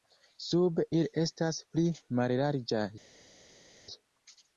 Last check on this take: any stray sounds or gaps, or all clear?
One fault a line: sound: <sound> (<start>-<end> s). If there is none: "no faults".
no faults